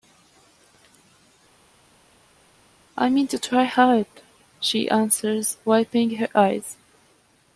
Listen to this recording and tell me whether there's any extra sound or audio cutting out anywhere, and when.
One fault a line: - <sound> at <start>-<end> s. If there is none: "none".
none